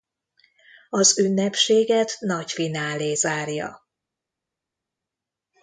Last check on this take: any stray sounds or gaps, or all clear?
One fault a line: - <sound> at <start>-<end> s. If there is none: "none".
none